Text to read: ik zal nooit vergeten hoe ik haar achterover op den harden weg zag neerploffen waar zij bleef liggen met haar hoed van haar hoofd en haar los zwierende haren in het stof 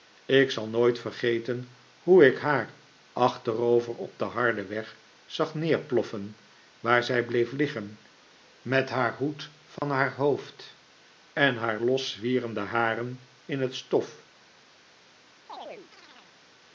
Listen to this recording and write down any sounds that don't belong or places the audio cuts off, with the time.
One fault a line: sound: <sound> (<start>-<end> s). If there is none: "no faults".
sound: dropout (9.8-9.8 s)
sound: chirp (15.5-16.4 s)